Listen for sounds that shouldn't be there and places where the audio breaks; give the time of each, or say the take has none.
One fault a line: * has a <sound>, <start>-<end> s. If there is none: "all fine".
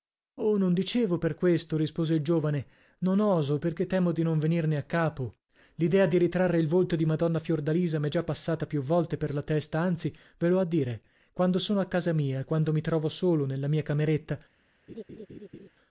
* has a laugh, 14.9-15.7 s